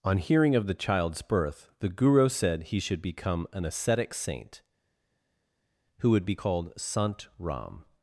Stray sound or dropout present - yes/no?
no